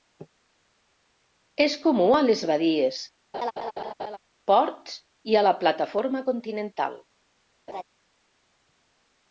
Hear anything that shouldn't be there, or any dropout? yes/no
yes